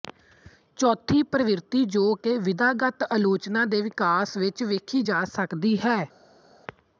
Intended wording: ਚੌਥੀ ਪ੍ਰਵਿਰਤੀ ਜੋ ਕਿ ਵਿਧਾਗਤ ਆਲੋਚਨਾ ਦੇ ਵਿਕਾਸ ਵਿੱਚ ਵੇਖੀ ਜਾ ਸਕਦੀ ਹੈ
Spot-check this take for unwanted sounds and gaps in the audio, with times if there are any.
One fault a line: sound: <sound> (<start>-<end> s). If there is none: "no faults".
no faults